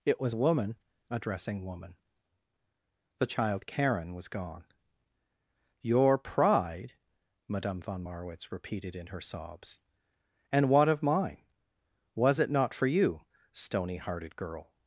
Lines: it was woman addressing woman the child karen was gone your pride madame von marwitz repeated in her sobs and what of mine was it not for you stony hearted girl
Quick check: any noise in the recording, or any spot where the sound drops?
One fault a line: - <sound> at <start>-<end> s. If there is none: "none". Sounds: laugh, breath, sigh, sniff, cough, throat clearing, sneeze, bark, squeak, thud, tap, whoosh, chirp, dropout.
none